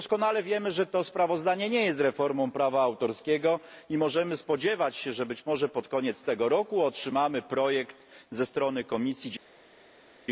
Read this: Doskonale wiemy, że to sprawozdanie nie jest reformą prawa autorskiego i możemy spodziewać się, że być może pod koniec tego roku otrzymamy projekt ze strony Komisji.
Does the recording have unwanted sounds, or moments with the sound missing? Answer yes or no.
no